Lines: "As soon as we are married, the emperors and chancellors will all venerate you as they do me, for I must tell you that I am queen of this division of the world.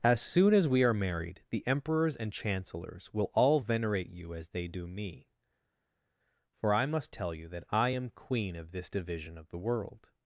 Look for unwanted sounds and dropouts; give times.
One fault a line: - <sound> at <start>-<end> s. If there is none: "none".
none